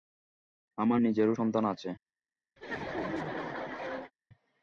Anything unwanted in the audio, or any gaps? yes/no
yes